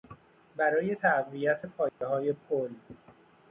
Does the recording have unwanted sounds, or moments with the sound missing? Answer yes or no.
yes